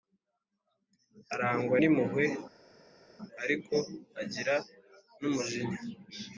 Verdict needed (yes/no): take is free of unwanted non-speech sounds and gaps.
yes